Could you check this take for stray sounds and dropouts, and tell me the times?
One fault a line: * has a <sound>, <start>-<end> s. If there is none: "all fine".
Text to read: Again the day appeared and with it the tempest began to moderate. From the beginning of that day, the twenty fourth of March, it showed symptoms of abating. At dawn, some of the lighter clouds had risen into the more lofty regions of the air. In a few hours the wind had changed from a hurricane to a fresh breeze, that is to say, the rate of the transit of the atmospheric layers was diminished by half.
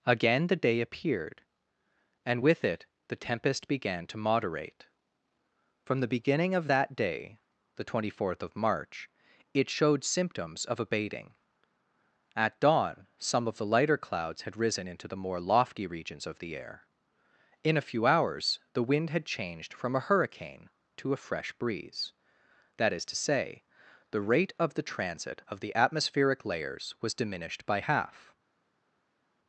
all fine